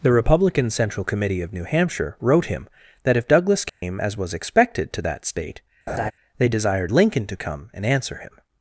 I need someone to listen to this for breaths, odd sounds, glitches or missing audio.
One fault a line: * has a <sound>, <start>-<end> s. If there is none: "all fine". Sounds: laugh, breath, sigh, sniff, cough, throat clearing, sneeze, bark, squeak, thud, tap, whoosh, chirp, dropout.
* has a dropout, 3.7-3.8 s
* has a laugh, 5.9-6.1 s